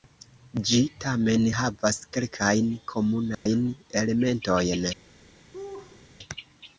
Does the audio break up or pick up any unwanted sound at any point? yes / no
yes